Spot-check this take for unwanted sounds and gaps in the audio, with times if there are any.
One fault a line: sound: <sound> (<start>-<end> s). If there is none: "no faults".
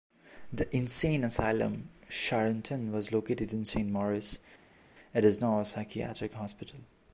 no faults